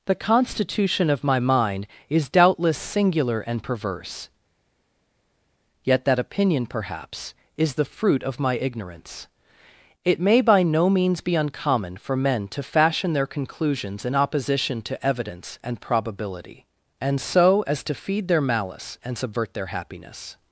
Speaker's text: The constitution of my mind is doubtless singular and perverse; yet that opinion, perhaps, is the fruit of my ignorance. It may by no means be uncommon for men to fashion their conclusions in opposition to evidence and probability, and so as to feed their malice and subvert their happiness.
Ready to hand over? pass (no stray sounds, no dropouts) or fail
pass